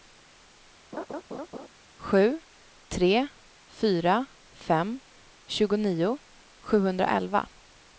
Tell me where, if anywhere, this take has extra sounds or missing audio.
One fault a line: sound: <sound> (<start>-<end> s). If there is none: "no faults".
sound: laugh (0.9-1.7 s)